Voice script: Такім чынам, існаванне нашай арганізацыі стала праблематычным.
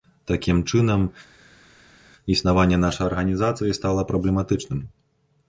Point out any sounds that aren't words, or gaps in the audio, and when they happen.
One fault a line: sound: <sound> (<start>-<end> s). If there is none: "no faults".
no faults